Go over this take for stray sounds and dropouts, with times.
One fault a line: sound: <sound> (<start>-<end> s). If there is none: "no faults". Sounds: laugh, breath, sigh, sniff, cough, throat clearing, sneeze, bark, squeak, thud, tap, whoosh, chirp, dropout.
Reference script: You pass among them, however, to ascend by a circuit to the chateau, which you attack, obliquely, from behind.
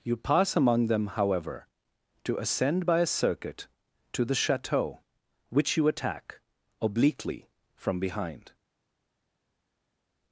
no faults